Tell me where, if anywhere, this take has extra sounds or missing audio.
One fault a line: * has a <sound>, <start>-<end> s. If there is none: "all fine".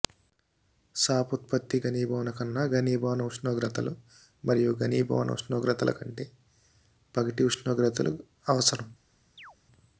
* has a chirp, 9.4-9.6 s